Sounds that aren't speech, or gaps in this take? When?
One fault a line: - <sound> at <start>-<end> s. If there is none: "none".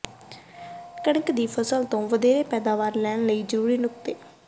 none